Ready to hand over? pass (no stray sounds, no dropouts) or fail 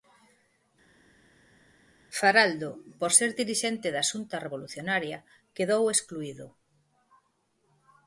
pass